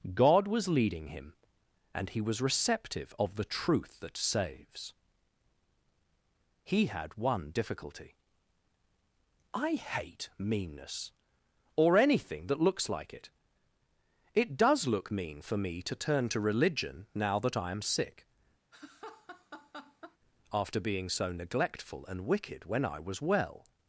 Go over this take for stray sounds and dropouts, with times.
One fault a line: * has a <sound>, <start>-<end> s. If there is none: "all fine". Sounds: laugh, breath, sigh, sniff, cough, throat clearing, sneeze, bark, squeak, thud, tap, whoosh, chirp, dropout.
* has a laugh, 18.7-20.2 s